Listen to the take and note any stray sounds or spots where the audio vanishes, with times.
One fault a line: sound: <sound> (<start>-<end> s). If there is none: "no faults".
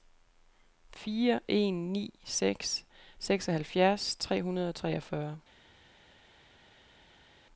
no faults